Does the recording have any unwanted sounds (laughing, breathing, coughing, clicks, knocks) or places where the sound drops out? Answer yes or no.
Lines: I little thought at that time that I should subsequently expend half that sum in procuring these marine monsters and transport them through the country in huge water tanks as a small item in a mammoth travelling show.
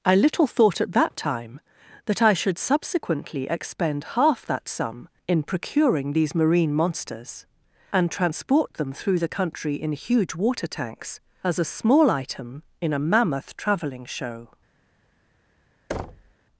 yes